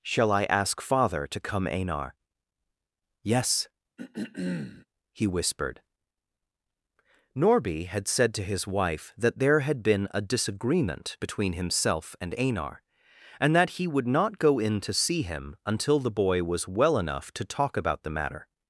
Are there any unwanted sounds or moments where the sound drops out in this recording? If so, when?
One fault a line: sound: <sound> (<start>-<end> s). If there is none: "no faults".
sound: throat clearing (4.0-4.9 s)